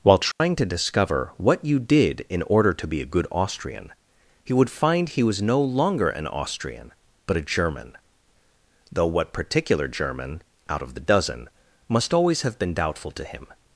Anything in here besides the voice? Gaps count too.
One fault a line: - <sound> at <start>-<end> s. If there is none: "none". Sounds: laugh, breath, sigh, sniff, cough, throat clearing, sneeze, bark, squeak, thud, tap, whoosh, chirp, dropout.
- dropout at 0.3-0.4 s